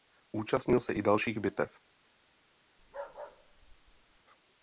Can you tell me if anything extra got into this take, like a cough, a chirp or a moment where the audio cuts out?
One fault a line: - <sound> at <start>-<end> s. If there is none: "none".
- bark at 2.8-4.2 s